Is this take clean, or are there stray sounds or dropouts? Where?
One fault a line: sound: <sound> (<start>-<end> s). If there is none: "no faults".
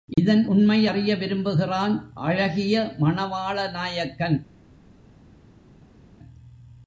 no faults